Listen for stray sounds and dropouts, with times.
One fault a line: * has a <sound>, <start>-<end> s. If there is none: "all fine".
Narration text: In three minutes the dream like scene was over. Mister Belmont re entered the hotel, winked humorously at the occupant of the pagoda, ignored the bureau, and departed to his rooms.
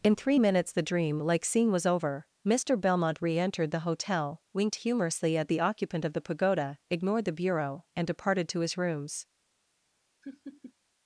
* has a laugh, 10.2-10.7 s